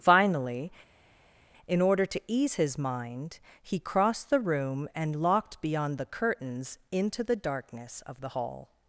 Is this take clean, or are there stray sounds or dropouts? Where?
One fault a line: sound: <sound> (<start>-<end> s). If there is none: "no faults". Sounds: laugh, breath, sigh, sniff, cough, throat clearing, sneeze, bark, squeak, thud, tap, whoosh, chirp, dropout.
no faults